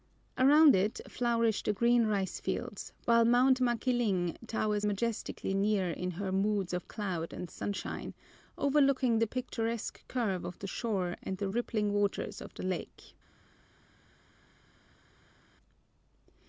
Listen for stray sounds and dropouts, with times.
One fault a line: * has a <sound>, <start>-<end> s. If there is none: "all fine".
all fine